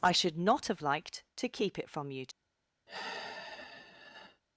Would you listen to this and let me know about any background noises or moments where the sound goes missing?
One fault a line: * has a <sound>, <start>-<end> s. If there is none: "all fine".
* has a sigh, 2.9-4.4 s